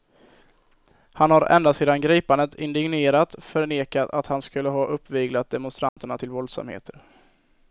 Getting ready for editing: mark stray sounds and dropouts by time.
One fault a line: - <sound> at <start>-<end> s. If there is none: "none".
- dropout at 5.9-6.0 s